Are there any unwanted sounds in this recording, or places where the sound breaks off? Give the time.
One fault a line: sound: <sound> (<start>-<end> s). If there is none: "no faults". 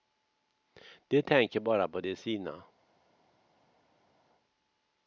no faults